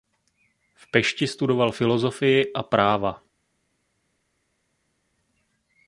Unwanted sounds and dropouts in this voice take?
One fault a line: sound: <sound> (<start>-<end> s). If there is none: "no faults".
no faults